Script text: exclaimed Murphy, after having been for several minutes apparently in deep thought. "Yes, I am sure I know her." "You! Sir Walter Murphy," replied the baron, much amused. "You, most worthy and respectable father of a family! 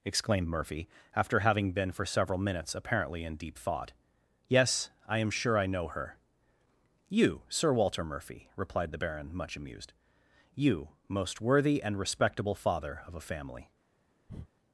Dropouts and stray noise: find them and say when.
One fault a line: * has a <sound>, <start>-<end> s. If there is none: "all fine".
* has a breath, 14.3-14.5 s